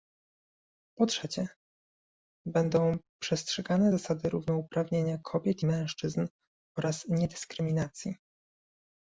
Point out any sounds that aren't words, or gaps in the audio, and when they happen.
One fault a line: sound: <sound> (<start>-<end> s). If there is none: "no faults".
no faults